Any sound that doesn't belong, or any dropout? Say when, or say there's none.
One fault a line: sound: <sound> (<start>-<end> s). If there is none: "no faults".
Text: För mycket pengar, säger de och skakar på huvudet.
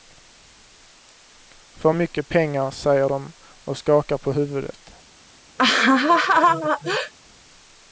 sound: laugh (5.6-7.1 s)